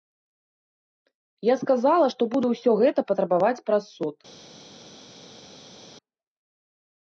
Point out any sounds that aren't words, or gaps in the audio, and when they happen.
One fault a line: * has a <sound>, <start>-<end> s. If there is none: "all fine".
all fine